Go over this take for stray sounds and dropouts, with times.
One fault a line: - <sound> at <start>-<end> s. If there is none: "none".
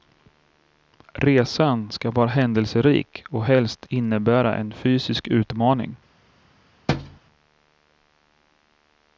- thud at 6.9-7.2 s